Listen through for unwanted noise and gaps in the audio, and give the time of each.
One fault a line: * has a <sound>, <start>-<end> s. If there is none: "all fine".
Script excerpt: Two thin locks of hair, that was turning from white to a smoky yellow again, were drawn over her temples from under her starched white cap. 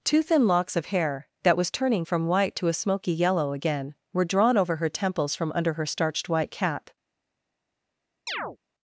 * has a chirp, 8.3-8.6 s